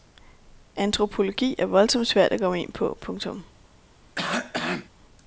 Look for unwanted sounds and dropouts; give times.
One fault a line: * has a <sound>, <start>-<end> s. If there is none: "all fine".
* has a cough, 4.2-4.9 s